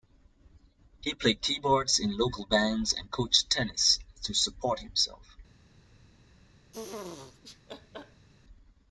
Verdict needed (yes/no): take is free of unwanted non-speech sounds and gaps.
no